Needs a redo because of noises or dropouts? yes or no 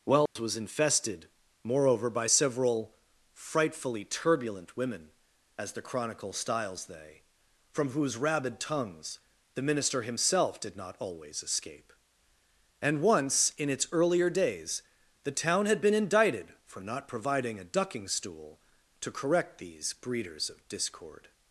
yes